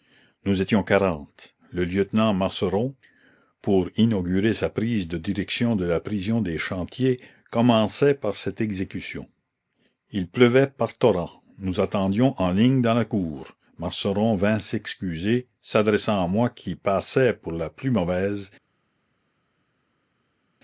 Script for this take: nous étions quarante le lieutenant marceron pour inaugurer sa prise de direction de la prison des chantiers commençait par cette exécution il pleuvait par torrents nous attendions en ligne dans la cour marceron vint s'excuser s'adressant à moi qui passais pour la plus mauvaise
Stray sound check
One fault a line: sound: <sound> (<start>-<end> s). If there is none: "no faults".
no faults